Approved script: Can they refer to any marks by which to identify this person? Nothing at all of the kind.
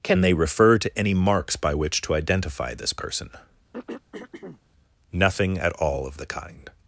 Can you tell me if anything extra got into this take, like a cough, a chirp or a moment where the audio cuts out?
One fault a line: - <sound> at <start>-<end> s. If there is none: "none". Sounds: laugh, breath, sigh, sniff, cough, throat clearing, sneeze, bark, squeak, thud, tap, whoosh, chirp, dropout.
- throat clearing at 3.7-4.6 s